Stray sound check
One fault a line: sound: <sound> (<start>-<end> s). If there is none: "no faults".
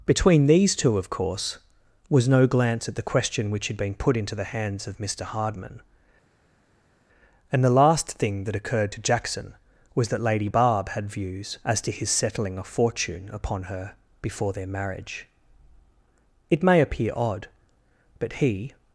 no faults